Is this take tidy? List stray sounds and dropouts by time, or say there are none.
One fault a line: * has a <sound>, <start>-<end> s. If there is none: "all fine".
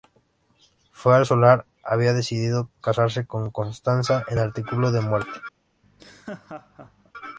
* has a laugh, 5.8-7.1 s